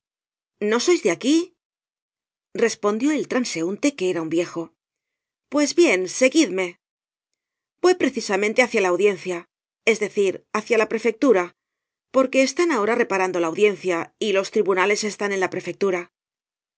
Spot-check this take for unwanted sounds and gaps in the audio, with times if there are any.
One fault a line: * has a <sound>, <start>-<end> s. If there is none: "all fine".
all fine